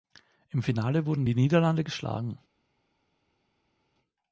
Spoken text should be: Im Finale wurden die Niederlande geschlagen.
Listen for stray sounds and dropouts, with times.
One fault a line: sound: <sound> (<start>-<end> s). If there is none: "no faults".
no faults